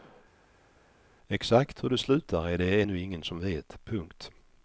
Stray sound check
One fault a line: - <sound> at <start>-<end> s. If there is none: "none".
none